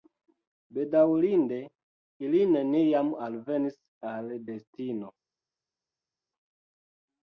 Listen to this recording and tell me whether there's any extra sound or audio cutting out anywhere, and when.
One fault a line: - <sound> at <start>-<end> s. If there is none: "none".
none